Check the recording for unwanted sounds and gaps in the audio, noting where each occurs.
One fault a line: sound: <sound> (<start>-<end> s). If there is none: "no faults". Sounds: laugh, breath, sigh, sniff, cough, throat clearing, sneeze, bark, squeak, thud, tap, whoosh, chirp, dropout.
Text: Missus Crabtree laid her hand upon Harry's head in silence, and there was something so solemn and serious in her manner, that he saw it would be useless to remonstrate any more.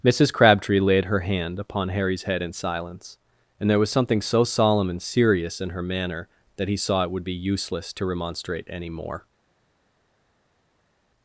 no faults